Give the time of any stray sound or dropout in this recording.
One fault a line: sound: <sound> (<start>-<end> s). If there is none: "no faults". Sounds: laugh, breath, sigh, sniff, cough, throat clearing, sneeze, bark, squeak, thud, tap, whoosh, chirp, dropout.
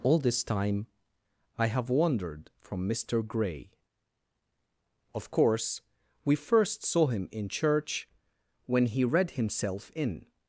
no faults